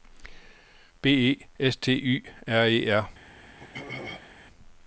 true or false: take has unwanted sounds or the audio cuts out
true